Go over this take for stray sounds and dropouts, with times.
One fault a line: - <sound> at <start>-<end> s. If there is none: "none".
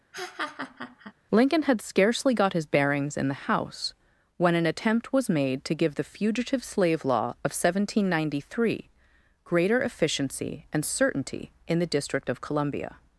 - laugh at 0.1-1.1 s